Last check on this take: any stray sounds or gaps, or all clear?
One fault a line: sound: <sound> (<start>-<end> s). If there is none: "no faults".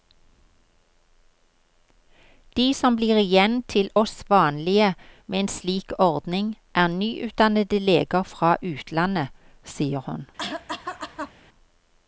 sound: cough (10.4-11.3 s)